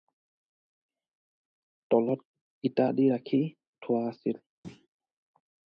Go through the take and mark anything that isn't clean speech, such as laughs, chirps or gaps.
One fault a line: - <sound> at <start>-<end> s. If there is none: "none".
- thud at 4.6-4.9 s